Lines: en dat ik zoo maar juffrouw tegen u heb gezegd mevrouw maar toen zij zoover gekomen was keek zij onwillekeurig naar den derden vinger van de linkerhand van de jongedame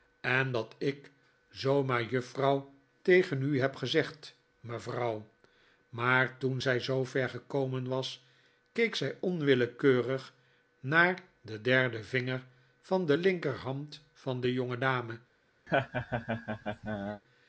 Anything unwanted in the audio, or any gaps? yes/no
yes